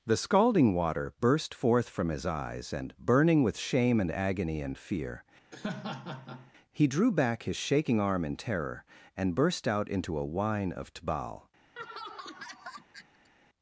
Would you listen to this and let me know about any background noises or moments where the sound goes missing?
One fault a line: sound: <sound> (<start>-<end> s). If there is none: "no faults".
sound: laugh (5.5-6.5 s)
sound: laugh (11.8-13.3 s)